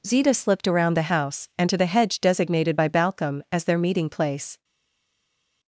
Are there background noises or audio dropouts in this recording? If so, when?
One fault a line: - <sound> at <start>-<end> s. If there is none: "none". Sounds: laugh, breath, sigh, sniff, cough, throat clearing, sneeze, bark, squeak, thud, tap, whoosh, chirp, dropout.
none